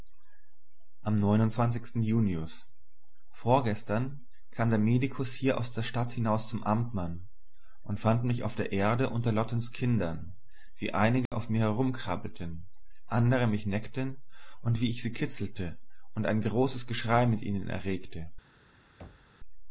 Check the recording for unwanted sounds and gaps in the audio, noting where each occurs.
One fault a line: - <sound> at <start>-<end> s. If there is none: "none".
- dropout at 11.3-11.3 s
- thud at 19.0-19.4 s